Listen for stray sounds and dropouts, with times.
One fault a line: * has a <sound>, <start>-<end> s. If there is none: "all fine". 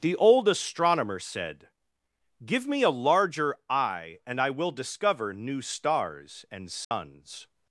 * has a dropout, 6.8-6.9 s